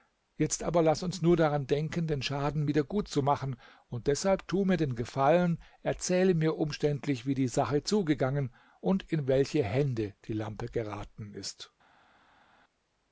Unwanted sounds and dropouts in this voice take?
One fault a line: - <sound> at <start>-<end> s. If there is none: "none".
none